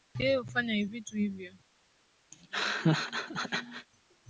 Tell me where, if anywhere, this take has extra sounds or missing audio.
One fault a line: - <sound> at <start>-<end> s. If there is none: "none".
- laugh at 2.3-3.9 s